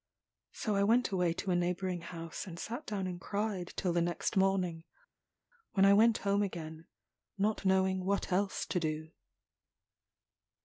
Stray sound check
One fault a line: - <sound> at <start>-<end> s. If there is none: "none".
none